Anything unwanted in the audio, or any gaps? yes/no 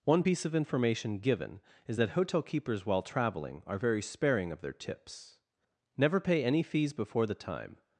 no